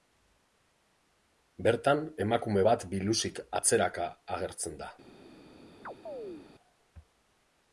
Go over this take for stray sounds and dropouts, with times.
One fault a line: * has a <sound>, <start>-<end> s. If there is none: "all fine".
* has a chirp, 5.8-6.5 s